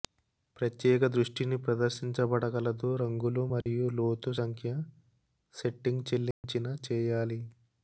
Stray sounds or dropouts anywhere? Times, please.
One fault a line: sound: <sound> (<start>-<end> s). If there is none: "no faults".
sound: dropout (3.6-3.7 s)
sound: dropout (6.3-6.4 s)